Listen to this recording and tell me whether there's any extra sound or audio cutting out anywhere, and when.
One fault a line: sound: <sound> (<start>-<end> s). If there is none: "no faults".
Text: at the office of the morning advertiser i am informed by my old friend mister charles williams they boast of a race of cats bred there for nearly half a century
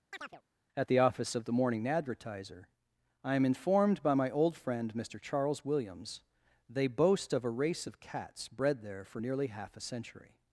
sound: chirp (0.1-0.4 s)